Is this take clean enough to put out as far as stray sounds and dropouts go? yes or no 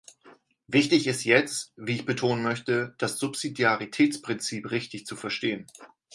yes